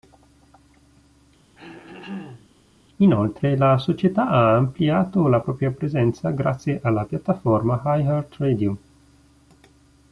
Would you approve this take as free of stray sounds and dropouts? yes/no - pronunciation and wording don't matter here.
no